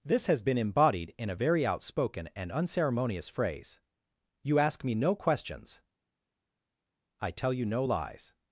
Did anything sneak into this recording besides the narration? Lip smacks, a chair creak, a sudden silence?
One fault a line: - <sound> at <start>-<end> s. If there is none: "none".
none